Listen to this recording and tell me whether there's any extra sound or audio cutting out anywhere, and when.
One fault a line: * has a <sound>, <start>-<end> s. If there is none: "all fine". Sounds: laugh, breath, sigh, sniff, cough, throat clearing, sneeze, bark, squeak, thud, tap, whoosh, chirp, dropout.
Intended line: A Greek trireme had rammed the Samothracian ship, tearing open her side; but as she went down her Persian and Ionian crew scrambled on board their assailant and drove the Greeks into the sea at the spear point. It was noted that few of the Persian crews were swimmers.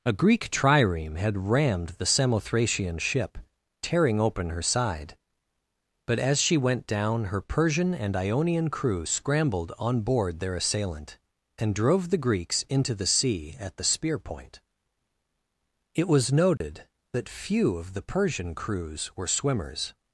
* has a dropout, 16.6-16.6 s